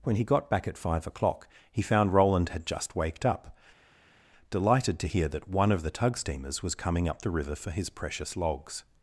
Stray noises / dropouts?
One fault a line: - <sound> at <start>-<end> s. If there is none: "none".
none